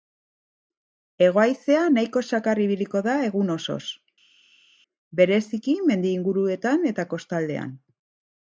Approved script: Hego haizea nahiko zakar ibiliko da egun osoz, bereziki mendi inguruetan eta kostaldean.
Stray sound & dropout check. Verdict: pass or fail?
pass